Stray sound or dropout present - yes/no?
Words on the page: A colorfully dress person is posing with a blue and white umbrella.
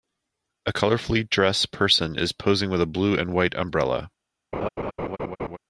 yes